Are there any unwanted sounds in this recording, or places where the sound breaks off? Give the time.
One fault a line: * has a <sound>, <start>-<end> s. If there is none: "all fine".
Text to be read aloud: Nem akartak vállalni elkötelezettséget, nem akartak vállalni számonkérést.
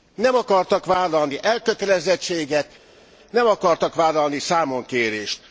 all fine